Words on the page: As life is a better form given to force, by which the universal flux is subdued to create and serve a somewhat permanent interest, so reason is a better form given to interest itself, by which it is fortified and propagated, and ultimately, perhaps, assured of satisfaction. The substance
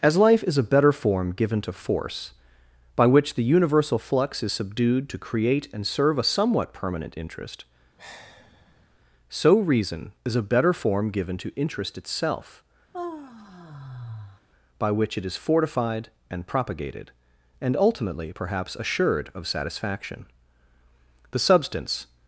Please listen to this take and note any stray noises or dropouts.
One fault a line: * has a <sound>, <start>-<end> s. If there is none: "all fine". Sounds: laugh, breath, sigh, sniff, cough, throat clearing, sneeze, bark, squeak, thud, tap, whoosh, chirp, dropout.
* has a sigh, 8.0-9.0 s
* has a sigh, 12.9-14.4 s